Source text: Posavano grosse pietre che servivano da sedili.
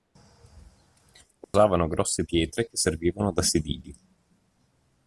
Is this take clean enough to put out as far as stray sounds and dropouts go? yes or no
no